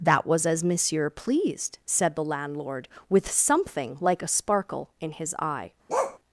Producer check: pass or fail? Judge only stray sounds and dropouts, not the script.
fail